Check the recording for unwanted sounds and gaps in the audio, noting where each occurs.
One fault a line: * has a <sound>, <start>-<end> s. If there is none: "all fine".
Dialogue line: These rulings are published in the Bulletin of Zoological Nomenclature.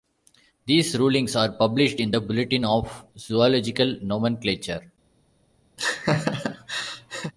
* has a laugh, 5.8-7.3 s